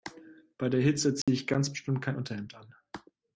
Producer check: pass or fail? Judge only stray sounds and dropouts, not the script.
fail